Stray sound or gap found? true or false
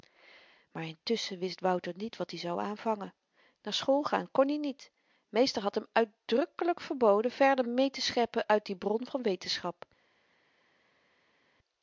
false